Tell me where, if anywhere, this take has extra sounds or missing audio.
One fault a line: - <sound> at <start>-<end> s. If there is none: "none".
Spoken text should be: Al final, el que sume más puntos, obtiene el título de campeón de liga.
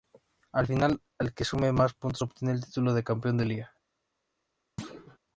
- thud at 4.8-5.2 s